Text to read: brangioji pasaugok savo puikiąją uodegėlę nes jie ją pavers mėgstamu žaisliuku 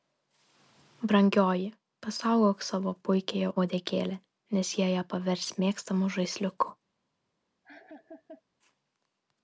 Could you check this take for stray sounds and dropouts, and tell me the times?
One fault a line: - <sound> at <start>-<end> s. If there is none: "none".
- laugh at 7.6-8.4 s